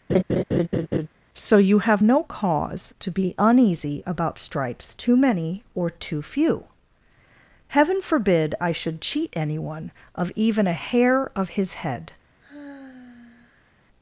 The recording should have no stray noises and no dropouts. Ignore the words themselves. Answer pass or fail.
fail